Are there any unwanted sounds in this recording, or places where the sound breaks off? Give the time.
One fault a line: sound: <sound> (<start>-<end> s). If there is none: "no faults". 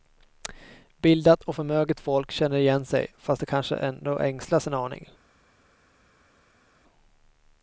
no faults